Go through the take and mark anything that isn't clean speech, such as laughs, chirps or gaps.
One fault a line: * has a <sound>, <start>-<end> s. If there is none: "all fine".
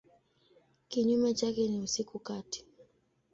all fine